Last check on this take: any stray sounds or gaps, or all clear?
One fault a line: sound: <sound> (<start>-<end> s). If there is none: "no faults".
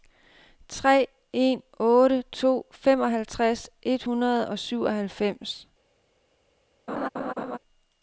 sound: laugh (6.9-7.6 s)